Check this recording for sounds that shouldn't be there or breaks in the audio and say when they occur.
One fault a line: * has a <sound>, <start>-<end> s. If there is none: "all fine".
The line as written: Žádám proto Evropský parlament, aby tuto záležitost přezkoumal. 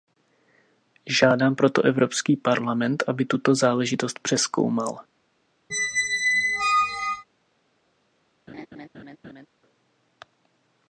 * has a squeak, 5.7-7.2 s
* has a laugh, 8.5-9.5 s